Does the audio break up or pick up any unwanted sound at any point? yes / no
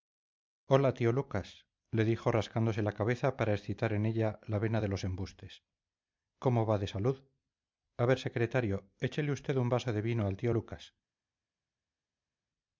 no